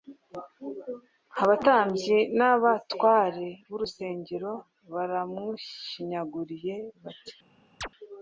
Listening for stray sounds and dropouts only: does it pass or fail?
fail